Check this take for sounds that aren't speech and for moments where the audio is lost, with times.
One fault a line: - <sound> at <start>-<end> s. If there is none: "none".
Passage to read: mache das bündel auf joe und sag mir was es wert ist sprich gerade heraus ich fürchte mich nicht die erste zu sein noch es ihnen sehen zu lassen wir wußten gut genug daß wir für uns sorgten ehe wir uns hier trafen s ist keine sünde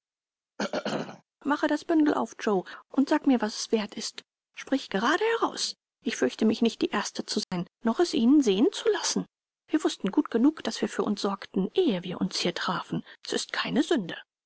- throat clearing at 0.6-1.2 s
- dropout at 7.4-7.5 s